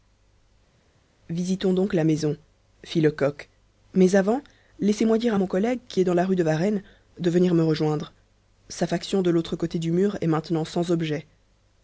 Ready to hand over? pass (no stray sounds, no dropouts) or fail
pass